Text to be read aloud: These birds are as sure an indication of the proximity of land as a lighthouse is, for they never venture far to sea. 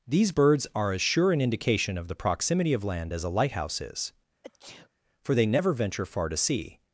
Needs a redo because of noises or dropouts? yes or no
yes